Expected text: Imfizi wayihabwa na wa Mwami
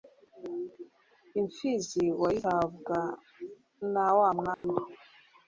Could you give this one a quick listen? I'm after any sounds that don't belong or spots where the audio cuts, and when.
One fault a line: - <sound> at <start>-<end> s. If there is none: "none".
- dropout at 4.5-4.6 s